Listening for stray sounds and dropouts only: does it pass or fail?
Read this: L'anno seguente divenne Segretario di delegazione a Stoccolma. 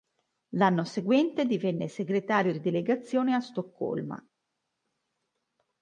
pass